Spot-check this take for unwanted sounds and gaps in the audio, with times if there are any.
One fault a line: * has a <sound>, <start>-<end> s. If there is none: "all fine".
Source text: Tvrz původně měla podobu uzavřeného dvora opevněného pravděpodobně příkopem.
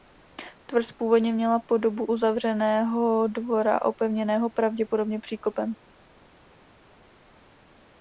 all fine